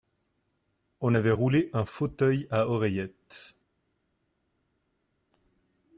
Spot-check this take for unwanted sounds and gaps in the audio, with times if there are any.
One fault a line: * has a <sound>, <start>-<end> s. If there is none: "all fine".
all fine